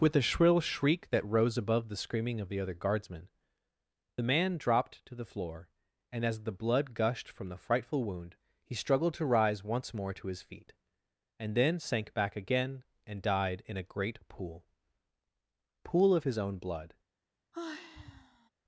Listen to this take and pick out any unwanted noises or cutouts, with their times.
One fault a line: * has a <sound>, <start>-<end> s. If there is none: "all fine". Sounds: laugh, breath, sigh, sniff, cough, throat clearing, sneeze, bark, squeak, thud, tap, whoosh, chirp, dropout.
* has a sigh, 17.5-18.5 s